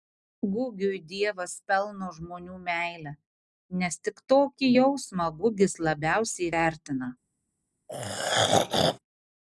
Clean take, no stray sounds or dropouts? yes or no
no